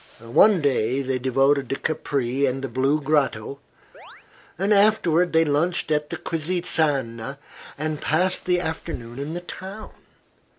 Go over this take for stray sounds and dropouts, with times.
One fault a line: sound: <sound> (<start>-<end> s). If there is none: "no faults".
sound: chirp (3.9-4.3 s)